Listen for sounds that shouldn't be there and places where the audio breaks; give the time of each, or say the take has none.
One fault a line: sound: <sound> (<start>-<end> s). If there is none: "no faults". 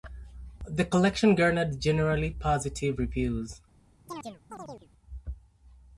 sound: chirp (4.1-4.9 s)